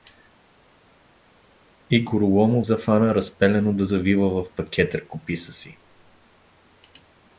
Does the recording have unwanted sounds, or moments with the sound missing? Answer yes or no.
no